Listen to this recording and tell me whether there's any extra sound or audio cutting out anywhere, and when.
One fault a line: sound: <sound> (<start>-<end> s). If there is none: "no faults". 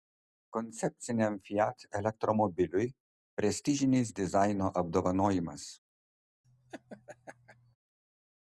sound: laugh (6.4-7.8 s)